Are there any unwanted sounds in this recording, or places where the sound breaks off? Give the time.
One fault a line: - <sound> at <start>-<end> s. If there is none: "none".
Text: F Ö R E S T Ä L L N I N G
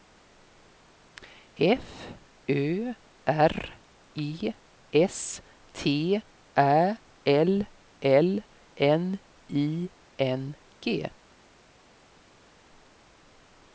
none